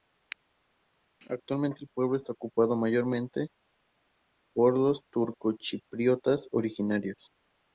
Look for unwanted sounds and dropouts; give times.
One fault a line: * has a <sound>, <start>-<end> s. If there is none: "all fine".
all fine